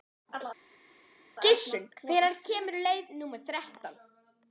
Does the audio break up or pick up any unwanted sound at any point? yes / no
no